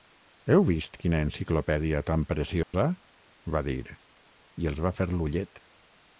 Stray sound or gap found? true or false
true